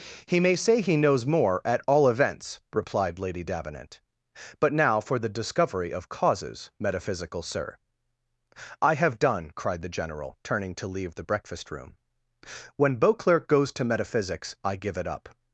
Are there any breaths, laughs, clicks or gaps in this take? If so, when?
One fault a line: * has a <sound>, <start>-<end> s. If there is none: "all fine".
all fine